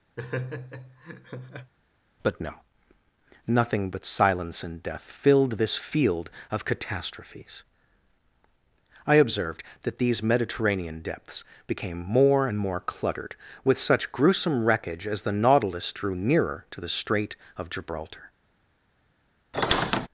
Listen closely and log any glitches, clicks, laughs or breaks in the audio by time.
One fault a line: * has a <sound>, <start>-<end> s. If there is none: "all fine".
* has a laugh, 0.2-1.7 s
* has a squeak, 19.5-20.1 s